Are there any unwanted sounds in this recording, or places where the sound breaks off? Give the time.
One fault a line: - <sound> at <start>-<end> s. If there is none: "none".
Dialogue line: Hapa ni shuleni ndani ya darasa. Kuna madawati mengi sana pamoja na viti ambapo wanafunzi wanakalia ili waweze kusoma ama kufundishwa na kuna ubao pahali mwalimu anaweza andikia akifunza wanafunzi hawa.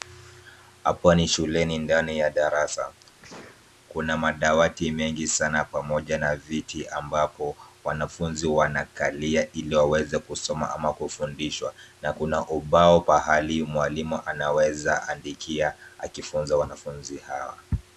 - sneeze at 3.2-3.7 s